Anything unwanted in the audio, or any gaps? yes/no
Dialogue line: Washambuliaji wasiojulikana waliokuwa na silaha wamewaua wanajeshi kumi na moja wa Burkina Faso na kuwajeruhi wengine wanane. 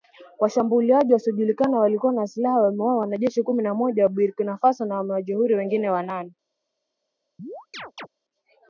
yes